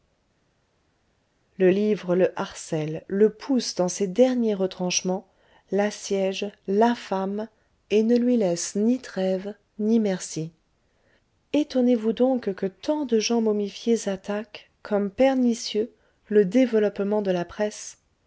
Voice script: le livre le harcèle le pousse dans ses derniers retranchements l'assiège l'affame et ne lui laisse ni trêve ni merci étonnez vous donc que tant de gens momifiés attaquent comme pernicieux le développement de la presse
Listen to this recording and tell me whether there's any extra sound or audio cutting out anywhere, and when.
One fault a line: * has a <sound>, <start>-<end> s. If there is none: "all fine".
all fine